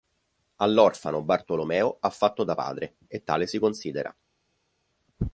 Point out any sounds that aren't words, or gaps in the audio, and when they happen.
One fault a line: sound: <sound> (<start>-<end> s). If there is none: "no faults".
no faults